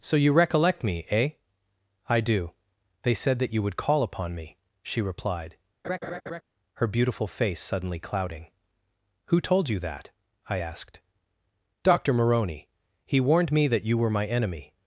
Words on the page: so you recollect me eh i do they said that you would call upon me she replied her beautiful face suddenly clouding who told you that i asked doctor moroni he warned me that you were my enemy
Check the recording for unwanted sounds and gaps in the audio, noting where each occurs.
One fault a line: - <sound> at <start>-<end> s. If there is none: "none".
- laugh at 5.8-6.4 s